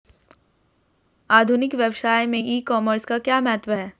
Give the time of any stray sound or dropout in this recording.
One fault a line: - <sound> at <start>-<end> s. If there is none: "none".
none